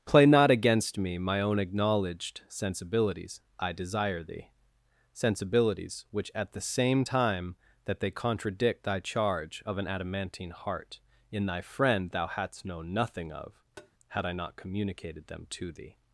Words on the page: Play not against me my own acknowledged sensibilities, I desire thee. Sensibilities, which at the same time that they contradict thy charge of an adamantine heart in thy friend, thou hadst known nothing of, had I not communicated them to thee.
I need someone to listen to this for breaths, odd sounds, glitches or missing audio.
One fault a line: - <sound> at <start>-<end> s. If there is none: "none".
- tap at 13.8-13.9 s